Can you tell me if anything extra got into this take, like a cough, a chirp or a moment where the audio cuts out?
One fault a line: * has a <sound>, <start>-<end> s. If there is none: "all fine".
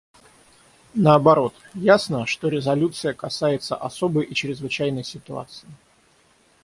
all fine